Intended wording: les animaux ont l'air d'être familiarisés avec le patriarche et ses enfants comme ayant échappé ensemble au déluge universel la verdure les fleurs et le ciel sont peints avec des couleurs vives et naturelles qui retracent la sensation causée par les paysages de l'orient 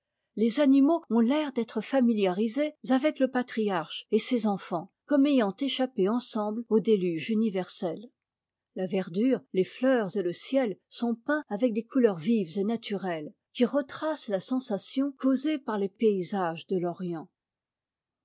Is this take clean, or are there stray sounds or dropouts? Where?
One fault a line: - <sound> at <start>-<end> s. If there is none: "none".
none